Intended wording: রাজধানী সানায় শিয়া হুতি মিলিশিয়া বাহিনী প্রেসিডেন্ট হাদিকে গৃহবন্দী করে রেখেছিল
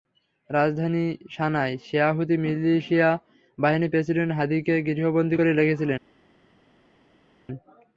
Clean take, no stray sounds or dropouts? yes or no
yes